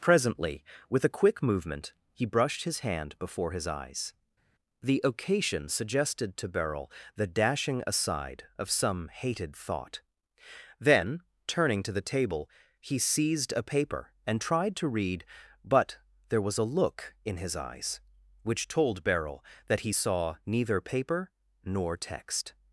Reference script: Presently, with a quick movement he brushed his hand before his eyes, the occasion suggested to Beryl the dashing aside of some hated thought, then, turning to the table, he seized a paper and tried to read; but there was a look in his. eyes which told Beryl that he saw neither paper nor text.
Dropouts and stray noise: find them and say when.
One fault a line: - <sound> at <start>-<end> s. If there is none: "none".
none